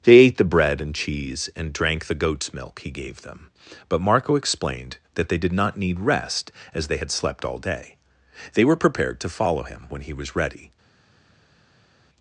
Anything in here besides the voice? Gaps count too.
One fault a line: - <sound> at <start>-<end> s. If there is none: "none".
none